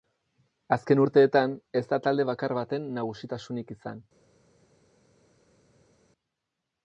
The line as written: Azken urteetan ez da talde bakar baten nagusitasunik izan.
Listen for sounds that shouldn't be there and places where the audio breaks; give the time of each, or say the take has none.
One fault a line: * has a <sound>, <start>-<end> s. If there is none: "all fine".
all fine